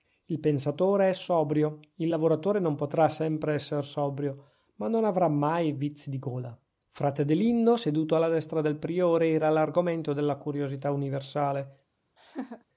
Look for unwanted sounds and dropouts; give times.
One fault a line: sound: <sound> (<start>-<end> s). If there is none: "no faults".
sound: laugh (12.2-12.7 s)